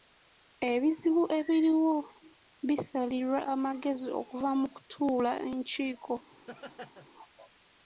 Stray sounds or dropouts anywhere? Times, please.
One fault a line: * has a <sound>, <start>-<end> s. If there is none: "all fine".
* has a laugh, 6.3-7.1 s